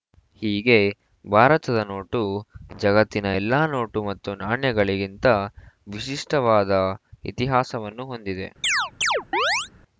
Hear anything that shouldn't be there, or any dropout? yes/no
yes